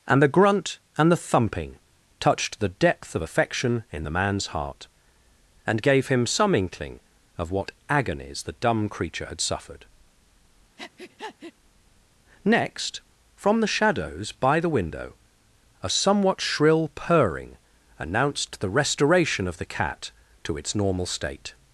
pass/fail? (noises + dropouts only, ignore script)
fail